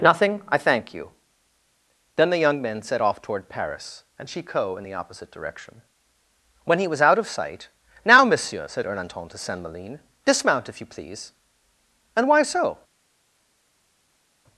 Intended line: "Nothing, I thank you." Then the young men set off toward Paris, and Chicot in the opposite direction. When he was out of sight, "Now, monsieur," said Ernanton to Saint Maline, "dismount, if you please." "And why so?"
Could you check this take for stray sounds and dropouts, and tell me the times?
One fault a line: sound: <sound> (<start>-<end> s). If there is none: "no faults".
no faults